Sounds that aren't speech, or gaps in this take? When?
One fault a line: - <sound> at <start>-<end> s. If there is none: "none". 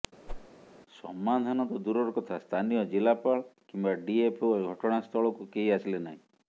- whoosh at 0.3-0.5 s